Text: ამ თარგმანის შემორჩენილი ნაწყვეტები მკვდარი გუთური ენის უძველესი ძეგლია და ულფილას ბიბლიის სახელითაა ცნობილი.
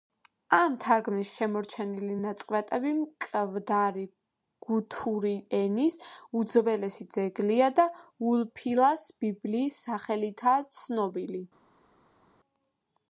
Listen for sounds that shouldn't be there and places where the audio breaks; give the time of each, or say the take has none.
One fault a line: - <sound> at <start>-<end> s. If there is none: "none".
none